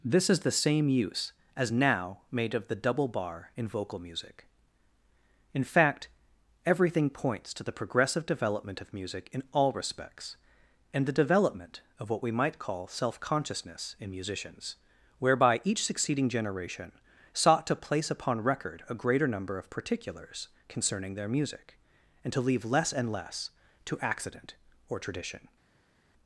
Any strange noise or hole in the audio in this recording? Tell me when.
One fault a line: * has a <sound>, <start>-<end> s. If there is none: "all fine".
all fine